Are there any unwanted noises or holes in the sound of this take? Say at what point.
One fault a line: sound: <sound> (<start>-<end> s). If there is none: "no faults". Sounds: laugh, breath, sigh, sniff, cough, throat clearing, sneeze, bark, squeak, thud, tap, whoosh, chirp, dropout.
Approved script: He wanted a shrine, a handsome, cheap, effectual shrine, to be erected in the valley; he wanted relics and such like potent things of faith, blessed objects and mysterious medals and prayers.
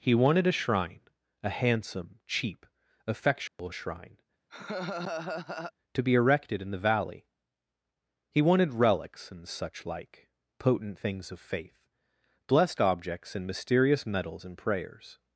sound: dropout (3.5-3.6 s)
sound: laugh (4.5-5.7 s)